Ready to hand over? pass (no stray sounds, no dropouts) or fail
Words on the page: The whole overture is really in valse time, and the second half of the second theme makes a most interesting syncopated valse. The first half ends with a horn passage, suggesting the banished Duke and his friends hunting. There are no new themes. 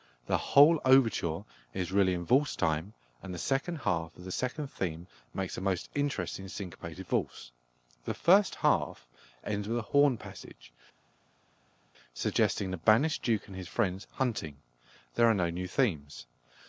pass